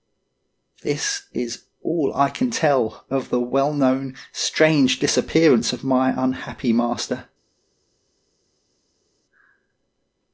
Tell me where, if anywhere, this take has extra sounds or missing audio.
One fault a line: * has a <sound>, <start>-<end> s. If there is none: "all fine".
all fine